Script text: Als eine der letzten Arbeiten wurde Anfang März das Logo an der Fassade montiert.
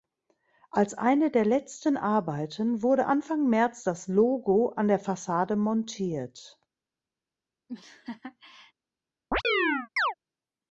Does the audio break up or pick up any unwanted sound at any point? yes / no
yes